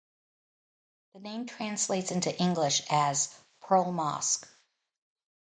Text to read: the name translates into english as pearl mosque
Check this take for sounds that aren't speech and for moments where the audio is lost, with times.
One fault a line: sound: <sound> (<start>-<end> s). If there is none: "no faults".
no faults